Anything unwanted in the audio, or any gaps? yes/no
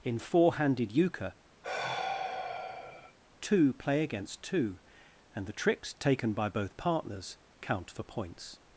yes